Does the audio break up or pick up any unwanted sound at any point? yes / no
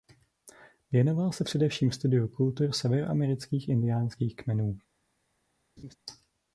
yes